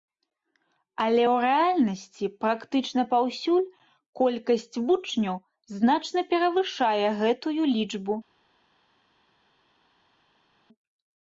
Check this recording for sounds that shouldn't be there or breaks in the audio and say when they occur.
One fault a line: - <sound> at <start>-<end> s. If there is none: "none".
none